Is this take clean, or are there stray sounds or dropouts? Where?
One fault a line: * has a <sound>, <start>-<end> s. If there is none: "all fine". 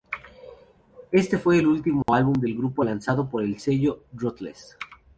* has a dropout, 2.0-2.1 s